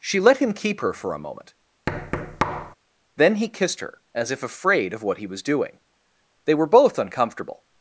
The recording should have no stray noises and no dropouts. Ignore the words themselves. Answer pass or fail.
fail